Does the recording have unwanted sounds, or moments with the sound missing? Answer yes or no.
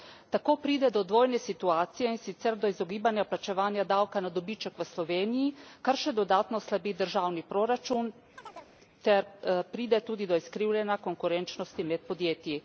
yes